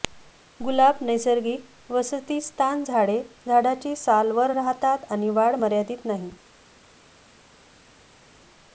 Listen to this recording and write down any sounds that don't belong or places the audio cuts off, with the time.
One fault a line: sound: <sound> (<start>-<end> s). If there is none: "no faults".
no faults